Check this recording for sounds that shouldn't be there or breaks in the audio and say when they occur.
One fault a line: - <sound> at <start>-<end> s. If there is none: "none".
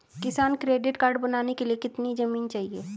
none